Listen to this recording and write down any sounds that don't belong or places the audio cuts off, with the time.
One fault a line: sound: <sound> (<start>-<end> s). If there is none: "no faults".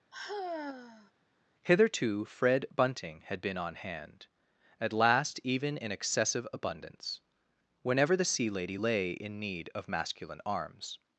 sound: sigh (0.1-1.1 s)